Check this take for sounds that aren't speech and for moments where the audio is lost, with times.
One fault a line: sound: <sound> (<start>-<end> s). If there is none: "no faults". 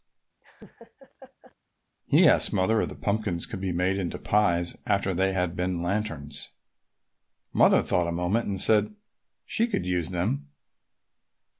sound: laugh (0.4-1.6 s)